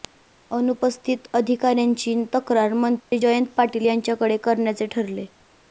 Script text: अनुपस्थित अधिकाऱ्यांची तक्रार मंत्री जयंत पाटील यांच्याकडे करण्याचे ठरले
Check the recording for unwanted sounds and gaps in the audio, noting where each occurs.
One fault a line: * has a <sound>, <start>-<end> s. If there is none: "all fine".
* has a dropout, 3.0-3.1 s